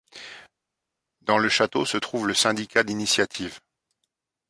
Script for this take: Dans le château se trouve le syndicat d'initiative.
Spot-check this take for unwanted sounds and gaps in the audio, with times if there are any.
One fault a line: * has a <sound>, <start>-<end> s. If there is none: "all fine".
all fine